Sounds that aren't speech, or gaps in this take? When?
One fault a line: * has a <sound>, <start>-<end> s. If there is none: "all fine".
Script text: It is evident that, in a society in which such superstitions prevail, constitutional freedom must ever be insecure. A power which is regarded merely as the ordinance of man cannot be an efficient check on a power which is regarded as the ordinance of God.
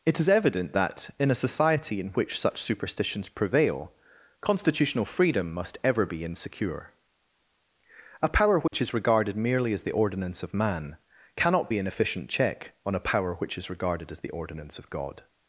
* has a dropout, 8.7-8.7 s